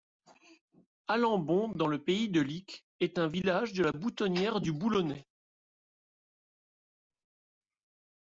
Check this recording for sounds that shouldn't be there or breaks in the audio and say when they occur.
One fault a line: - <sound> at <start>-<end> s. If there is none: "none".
none